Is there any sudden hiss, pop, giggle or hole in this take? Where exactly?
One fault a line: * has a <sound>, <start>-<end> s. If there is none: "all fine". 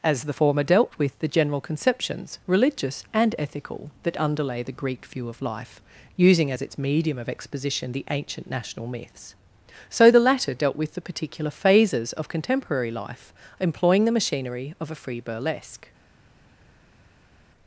all fine